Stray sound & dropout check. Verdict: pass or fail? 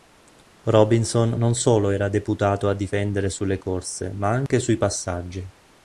fail